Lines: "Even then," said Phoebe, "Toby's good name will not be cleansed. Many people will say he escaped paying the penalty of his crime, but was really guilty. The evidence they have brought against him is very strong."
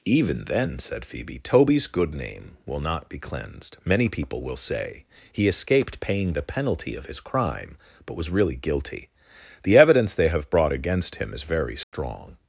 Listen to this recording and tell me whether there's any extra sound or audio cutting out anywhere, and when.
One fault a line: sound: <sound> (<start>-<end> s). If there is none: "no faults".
sound: dropout (11.8-11.9 s)